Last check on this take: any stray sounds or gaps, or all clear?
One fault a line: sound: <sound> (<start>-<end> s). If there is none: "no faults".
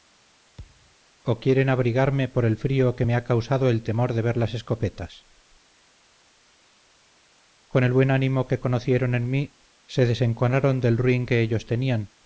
sound: thud (0.6-1.0 s)